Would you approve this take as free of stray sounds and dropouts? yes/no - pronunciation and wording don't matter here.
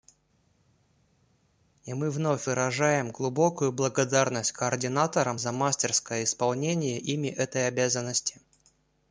yes